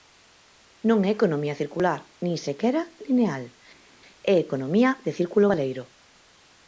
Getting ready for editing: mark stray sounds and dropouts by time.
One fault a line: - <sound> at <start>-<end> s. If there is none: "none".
none